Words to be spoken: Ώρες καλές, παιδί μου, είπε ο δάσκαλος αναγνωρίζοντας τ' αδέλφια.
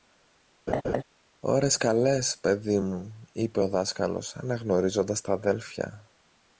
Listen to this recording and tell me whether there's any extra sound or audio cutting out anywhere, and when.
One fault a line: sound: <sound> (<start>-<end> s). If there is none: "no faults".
sound: laugh (0.7-1.0 s)